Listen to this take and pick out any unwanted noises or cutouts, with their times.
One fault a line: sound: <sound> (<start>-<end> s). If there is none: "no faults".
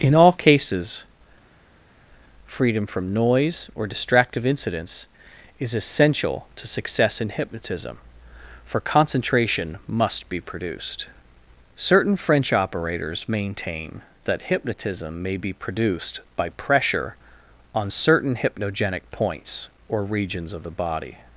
no faults